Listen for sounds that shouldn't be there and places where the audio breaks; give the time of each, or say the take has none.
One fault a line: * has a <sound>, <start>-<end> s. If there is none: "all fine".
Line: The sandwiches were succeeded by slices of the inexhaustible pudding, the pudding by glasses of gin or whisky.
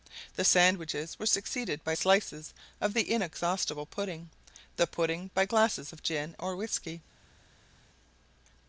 all fine